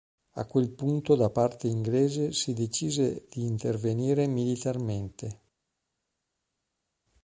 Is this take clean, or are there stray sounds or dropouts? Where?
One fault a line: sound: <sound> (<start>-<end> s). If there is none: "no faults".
no faults